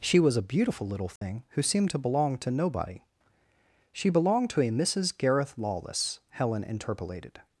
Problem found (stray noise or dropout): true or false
true